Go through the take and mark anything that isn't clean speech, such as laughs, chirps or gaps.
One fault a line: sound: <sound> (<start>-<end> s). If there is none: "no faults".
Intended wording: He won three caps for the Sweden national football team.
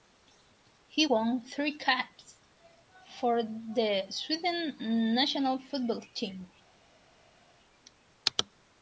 no faults